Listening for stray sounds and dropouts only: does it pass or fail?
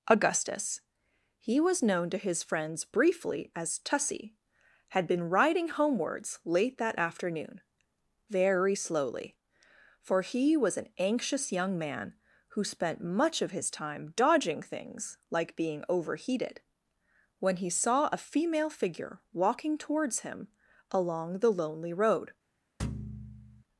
fail